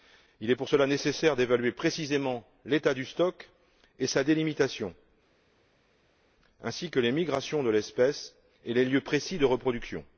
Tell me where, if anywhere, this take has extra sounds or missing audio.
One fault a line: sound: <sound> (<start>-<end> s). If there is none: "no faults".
no faults